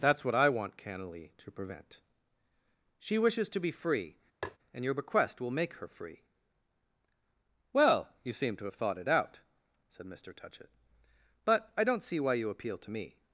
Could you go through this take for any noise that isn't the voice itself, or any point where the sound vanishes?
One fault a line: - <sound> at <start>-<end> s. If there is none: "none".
- tap at 4.4-4.6 s